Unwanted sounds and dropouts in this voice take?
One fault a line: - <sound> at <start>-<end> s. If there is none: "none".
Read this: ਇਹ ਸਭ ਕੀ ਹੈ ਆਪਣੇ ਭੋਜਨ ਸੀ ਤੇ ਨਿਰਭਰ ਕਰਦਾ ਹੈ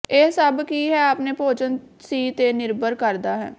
none